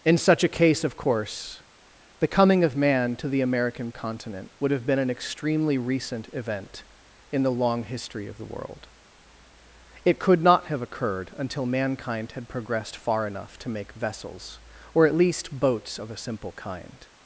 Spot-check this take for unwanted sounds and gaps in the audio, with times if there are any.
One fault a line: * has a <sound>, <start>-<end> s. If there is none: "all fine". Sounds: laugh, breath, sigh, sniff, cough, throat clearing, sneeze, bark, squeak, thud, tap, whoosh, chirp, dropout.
all fine